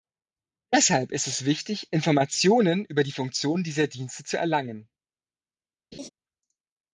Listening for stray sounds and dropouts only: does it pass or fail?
fail